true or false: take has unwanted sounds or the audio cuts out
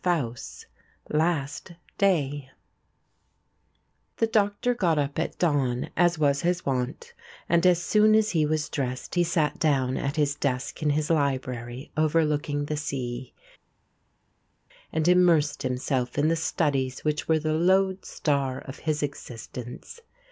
false